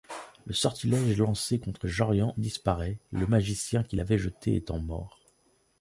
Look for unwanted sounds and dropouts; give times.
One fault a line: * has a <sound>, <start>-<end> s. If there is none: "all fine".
all fine